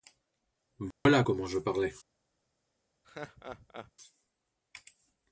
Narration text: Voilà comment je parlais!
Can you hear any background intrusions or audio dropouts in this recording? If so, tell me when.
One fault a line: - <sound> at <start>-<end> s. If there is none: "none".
- dropout at 0.9-1.1 s
- laugh at 3.0-3.9 s